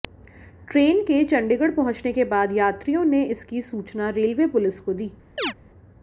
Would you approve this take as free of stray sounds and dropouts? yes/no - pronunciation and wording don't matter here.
no